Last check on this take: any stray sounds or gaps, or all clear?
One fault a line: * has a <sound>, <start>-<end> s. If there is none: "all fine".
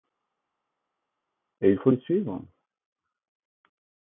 all fine